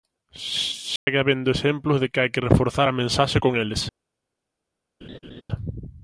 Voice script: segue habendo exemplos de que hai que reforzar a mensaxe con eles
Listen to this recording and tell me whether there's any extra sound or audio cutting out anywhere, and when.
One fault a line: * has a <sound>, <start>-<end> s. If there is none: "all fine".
* has a dropout, 1.0-1.1 s
* has a laugh, 5.0-5.4 s